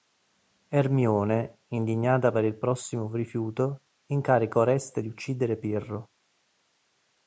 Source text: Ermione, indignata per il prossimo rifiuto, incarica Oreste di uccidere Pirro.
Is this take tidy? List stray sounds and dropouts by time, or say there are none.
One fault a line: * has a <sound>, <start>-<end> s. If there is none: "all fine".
all fine